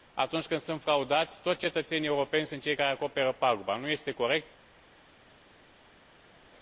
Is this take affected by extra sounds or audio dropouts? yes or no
no